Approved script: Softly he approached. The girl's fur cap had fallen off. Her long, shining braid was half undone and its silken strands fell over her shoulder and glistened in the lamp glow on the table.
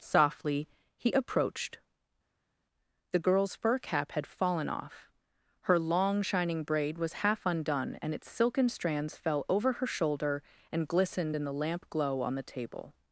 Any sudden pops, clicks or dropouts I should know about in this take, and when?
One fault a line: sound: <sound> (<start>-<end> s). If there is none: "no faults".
no faults